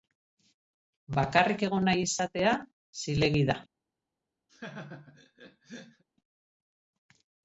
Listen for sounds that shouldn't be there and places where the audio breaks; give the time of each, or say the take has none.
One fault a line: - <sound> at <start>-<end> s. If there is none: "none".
- laugh at 4.5-6.0 s